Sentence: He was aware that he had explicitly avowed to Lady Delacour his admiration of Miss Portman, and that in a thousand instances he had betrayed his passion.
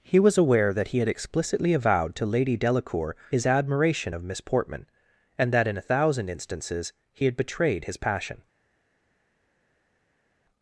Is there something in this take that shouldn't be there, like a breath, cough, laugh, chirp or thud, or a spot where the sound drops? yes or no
no